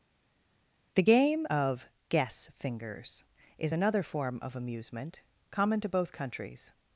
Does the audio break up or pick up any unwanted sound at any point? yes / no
no